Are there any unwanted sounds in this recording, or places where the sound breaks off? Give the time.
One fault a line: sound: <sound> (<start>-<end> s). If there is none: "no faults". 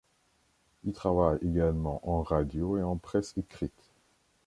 no faults